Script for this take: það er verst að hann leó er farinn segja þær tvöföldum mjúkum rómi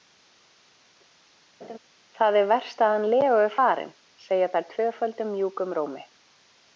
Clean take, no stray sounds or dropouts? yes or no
no